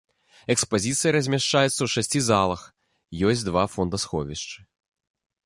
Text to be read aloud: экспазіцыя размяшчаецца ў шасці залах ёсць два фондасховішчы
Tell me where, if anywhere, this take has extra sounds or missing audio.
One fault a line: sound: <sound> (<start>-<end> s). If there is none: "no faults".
no faults